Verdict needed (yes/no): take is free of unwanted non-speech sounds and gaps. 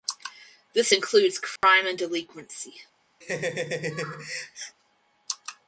no